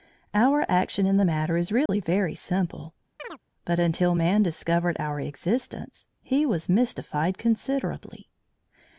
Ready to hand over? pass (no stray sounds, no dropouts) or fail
fail